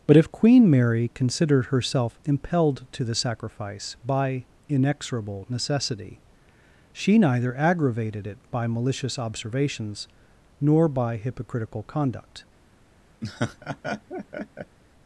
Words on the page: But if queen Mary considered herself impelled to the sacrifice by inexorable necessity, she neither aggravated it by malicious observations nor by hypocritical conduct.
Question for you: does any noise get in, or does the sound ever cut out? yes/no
yes